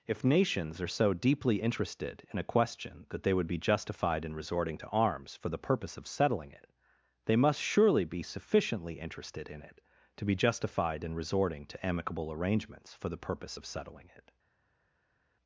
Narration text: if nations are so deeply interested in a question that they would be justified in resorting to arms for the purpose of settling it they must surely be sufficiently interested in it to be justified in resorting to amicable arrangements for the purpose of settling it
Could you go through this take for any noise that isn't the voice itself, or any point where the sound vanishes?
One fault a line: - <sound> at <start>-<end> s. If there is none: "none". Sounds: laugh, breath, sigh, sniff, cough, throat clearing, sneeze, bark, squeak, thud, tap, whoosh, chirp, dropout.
none